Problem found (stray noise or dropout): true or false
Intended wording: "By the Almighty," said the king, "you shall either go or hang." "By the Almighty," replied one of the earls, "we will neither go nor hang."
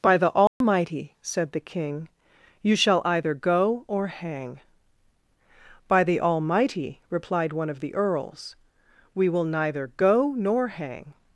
true